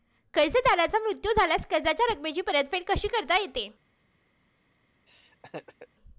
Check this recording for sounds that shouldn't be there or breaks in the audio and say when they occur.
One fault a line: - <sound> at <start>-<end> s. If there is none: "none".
- laugh at 5.1-5.9 s